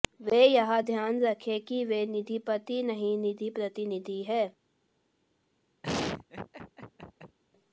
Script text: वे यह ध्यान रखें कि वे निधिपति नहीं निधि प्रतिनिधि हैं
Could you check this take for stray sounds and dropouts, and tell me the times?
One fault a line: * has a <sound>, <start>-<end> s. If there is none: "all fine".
* has a laugh, 5.8-7.4 s